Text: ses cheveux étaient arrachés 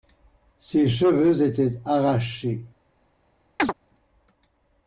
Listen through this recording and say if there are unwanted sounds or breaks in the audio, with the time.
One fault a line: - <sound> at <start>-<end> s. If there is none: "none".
- chirp at 3.6-3.7 s